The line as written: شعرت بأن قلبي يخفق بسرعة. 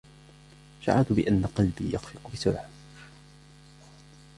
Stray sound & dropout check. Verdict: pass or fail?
pass